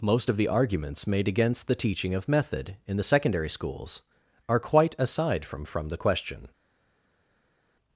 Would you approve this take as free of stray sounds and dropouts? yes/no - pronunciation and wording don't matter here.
yes